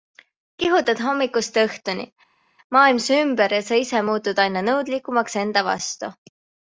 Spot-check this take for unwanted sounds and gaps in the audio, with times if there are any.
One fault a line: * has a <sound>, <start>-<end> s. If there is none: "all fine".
all fine